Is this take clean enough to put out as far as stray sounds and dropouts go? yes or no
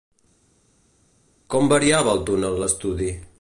yes